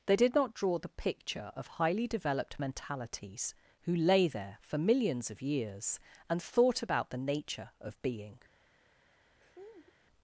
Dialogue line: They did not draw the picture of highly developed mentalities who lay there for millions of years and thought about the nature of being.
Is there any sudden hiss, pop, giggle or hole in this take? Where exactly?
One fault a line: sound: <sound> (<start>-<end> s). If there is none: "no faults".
sound: laugh (9.4-10.0 s)